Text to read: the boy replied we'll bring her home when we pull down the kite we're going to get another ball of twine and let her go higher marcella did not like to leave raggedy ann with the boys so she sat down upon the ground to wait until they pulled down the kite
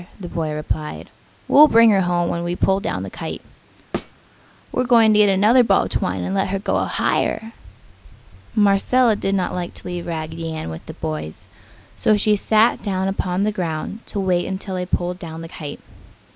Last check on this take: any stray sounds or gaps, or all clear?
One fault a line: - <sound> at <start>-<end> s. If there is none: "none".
- thud at 3.9-4.1 s